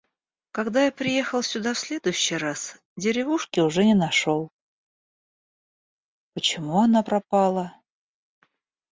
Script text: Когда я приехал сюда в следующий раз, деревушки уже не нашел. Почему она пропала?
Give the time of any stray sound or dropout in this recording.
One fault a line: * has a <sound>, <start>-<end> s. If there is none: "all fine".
all fine